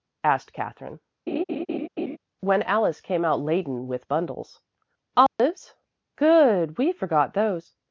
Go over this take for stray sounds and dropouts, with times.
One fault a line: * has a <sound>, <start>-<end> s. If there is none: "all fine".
* has a laugh, 1.3-2.2 s
* has a dropout, 5.3-5.4 s